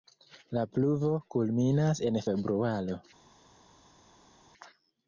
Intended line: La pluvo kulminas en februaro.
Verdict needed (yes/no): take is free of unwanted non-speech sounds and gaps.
yes